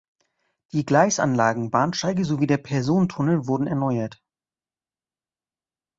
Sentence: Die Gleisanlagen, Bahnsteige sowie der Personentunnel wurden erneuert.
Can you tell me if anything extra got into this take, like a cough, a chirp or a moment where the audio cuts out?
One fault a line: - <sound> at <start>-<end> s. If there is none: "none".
none